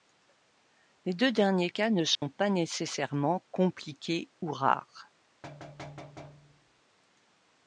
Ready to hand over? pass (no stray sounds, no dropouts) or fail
fail